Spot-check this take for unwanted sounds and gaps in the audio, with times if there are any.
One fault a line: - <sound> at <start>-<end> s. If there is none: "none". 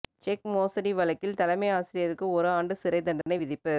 - dropout at 3.2-3.3 s